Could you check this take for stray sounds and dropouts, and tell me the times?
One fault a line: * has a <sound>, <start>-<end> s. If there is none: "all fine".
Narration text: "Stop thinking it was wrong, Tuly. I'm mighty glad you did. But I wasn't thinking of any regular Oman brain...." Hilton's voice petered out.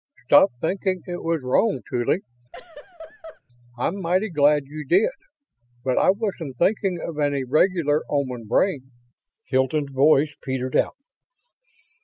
* has a laugh, 2.5-3.4 s